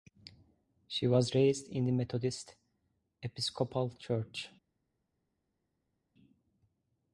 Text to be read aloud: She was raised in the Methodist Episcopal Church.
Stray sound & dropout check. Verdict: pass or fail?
pass